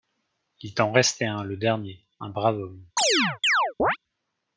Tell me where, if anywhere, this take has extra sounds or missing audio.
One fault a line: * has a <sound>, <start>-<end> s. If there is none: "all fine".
* has a chirp, 3.0-4.0 s